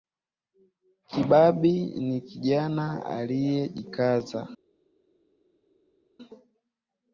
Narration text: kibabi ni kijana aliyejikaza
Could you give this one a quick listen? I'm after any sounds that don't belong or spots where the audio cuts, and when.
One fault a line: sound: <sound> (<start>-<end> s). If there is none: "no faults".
no faults